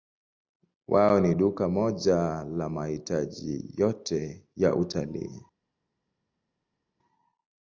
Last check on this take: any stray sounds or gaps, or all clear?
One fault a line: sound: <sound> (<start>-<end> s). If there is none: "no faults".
no faults